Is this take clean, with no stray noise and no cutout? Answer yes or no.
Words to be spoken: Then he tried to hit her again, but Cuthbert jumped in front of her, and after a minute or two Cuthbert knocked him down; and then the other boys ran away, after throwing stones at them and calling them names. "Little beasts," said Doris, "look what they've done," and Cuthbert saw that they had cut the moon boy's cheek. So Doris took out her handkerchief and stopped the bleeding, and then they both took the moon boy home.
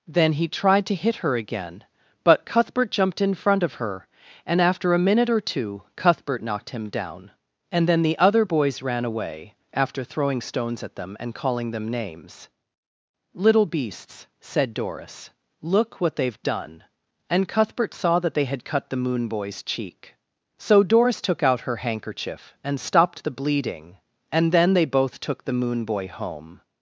yes